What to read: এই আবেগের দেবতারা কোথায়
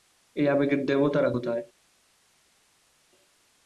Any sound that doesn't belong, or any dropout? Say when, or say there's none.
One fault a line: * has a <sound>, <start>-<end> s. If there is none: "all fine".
all fine